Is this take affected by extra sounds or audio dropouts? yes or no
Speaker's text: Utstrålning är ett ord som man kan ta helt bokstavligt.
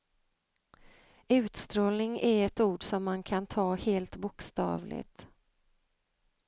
no